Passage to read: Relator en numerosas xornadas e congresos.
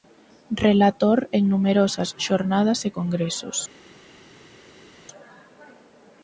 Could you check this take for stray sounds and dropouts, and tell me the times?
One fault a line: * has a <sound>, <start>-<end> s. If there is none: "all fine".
all fine